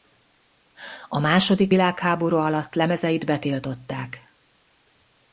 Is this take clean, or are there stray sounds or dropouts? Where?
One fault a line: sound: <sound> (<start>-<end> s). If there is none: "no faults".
no faults